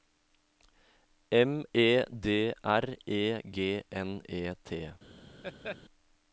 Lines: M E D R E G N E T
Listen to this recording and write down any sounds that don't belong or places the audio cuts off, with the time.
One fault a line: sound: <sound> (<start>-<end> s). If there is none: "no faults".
sound: laugh (5.4-5.8 s)